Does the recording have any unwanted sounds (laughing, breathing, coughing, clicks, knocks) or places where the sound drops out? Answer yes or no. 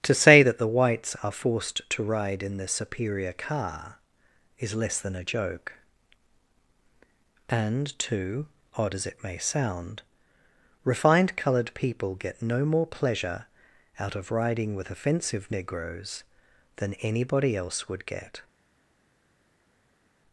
no